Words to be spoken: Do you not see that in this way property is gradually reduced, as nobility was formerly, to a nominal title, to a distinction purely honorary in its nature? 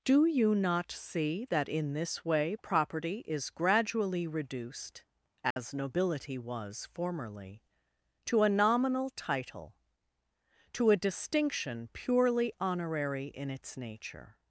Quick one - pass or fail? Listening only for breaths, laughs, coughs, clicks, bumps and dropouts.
fail